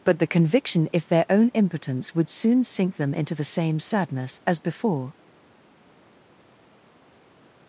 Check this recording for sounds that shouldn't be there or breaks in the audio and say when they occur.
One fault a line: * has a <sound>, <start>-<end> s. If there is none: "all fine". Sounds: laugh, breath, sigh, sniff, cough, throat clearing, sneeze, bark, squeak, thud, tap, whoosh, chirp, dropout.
all fine